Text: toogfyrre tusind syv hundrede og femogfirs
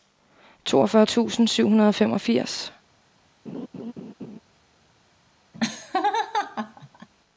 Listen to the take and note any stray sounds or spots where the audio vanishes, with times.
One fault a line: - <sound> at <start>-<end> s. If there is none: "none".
- laugh at 3.5-4.4 s
- laugh at 5.5-7.1 s